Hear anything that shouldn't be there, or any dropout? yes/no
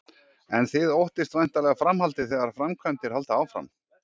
no